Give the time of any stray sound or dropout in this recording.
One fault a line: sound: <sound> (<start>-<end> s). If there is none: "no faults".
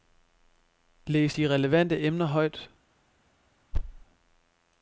sound: thud (3.7-4.0 s)